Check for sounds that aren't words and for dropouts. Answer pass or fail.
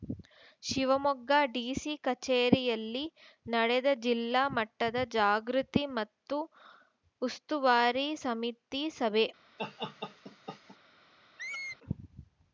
fail